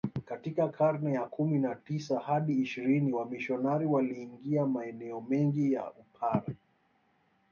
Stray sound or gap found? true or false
false